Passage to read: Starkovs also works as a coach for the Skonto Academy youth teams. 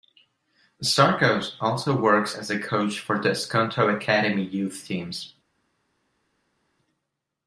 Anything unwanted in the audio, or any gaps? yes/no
no